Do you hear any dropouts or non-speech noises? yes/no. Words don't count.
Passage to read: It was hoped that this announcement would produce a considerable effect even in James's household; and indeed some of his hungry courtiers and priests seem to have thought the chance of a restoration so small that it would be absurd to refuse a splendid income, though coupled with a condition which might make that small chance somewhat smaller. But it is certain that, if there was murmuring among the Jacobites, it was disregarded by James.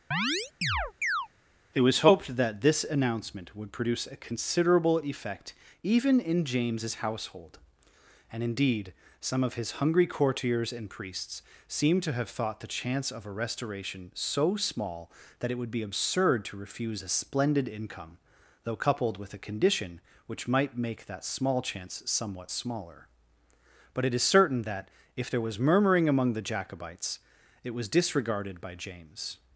yes